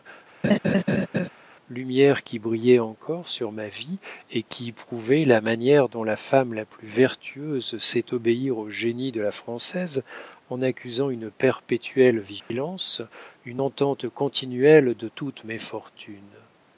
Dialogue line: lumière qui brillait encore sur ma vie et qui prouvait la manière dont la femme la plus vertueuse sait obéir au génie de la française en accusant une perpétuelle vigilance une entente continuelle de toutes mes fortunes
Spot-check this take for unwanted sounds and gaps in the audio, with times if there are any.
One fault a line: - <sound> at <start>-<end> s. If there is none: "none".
- laugh at 0.4-1.3 s
- dropout at 12.4-12.5 s